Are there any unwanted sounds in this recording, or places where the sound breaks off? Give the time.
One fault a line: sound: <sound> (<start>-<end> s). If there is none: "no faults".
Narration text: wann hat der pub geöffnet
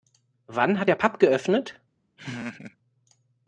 sound: laugh (2.2-2.8 s)